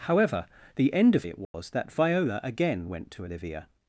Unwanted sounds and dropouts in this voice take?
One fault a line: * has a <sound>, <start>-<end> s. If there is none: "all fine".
* has a dropout, 1.4-1.5 s